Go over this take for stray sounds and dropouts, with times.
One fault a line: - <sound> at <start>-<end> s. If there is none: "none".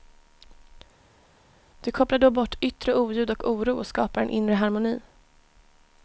none